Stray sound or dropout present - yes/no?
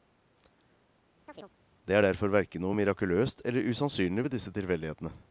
yes